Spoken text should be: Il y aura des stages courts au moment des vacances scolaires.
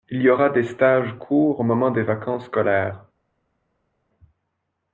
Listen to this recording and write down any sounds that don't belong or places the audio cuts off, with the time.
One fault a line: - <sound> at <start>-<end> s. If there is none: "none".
none